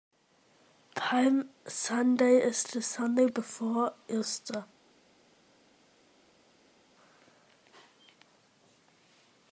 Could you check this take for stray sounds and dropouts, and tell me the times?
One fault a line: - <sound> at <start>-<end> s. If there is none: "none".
none